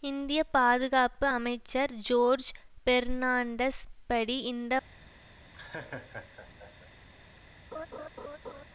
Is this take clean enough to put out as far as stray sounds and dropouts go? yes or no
no